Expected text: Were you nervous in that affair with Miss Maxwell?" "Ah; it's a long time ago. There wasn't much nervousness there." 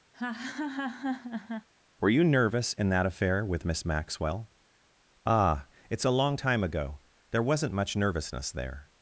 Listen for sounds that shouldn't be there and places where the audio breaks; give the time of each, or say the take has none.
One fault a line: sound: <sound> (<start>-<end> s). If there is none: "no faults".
sound: laugh (0.1-1.7 s)